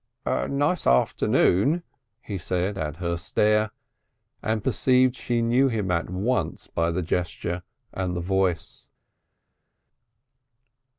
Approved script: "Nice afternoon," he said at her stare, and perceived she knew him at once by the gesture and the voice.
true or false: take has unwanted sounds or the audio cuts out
false